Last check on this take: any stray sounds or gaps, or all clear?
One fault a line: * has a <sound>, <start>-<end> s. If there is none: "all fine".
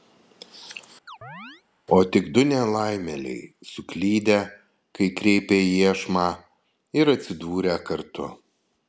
* has a chirp, 1.1-1.6 s